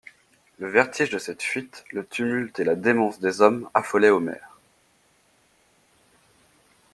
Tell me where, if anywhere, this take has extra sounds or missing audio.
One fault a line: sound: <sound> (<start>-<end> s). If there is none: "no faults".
no faults